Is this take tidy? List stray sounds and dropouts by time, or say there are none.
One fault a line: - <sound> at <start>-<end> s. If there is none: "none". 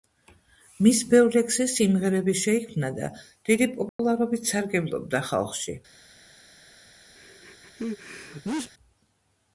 - dropout at 3.9-4.0 s
- sneeze at 7.2-8.7 s